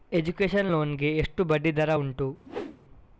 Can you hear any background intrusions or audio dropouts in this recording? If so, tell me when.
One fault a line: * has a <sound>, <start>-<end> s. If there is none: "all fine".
* has a whoosh, 2.4-2.8 s